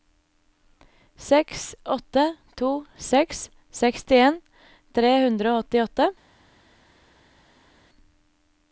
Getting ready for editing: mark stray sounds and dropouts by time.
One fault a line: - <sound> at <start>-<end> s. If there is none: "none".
none